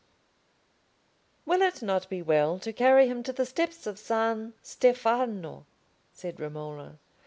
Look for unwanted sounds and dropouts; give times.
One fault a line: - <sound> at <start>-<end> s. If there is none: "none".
none